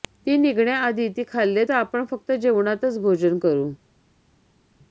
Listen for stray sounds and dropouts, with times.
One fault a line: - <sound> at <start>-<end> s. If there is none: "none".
none